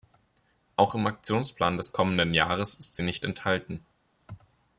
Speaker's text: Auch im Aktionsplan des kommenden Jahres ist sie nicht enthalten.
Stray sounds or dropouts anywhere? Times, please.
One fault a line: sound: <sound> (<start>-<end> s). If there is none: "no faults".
no faults